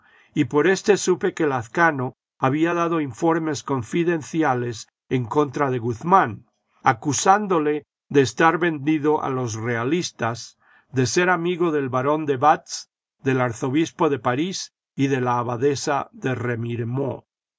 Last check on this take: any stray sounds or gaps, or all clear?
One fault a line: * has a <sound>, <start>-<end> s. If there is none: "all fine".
all fine